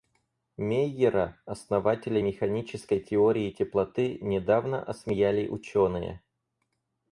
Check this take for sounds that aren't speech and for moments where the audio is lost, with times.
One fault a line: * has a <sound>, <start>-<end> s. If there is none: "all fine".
all fine